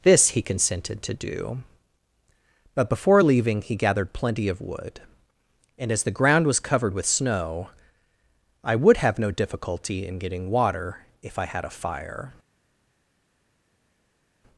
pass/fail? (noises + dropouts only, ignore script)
pass